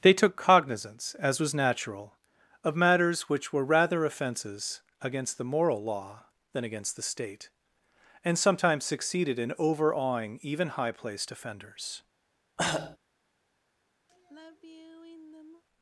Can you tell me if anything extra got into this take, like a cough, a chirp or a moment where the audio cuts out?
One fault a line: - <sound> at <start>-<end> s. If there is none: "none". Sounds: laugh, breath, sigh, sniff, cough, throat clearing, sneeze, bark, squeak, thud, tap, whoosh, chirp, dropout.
- cough at 12.6-13.0 s
- sigh at 14.1-15.6 s